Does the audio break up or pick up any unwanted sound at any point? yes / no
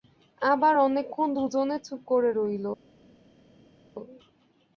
no